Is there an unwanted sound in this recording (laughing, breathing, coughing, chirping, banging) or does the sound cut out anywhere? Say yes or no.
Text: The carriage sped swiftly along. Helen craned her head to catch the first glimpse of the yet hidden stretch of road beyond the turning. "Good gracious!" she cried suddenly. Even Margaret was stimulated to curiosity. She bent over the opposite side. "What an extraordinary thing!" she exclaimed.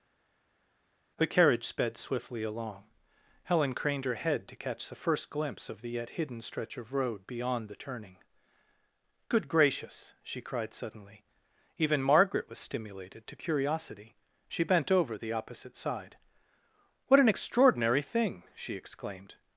no